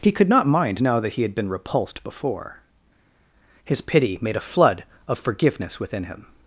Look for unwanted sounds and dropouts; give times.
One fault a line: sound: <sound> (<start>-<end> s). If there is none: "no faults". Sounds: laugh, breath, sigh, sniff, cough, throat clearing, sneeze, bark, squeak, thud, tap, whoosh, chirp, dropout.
no faults